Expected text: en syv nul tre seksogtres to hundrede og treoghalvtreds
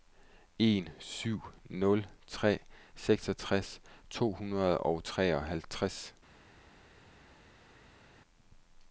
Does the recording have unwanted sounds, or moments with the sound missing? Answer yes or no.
no